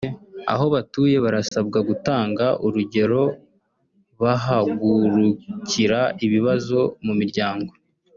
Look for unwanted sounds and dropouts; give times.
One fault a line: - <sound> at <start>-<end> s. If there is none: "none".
- dropout at 1.5-1.5 s